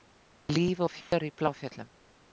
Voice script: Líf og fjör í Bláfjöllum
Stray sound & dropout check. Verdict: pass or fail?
fail